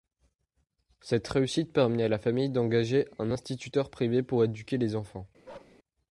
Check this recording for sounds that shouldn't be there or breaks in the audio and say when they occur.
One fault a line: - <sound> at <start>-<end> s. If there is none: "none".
- bark at 5.4-5.8 s